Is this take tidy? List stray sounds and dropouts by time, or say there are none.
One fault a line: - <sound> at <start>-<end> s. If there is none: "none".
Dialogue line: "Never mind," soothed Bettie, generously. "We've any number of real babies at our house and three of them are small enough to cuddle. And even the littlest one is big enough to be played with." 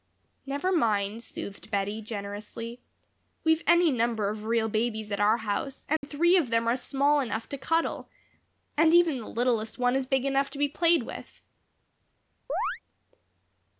- dropout at 6.0-6.0 s
- chirp at 12.5-12.8 s